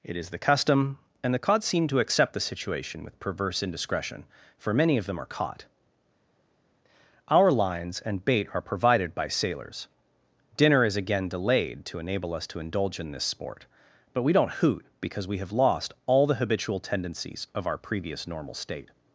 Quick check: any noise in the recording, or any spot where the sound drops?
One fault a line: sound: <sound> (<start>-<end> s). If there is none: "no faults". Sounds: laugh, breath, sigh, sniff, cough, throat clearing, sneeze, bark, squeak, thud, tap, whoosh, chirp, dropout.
no faults